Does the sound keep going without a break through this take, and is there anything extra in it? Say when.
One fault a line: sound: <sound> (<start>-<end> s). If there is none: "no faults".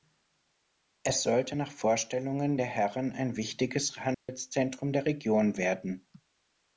sound: dropout (4.1-4.3 s)